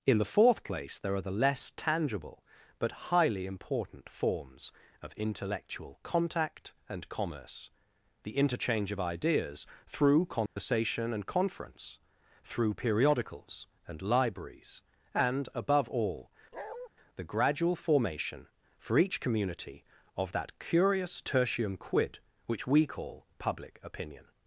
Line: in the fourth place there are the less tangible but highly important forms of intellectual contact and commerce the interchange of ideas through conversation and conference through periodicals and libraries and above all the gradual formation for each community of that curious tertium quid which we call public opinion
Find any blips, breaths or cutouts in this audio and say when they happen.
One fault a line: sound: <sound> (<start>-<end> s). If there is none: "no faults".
sound: dropout (10.5-10.6 s)
sound: bark (16.5-16.9 s)